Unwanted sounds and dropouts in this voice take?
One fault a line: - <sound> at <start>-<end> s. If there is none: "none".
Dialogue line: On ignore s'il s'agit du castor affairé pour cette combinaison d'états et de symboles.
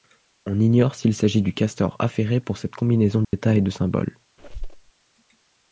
- dropout at 3.2-3.3 s
- squeak at 4.4-4.9 s